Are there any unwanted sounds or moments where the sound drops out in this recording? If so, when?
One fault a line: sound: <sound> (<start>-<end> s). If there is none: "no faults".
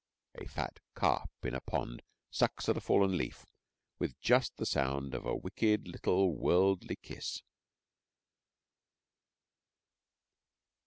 no faults